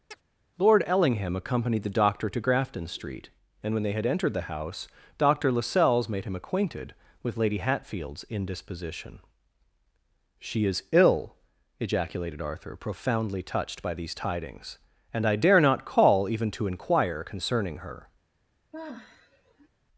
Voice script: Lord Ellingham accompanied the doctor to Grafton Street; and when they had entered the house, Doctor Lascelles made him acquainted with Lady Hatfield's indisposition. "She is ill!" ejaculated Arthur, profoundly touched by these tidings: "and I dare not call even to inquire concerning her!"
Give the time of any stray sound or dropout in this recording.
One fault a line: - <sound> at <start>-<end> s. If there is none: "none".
- chirp at 0.1-0.2 s
- sigh at 18.7-19.7 s